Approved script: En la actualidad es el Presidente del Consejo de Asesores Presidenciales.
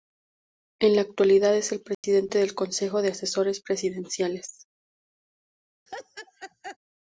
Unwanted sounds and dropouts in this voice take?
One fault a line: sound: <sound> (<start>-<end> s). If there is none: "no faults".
sound: dropout (1.9-2.0 s)
sound: laugh (5.9-6.8 s)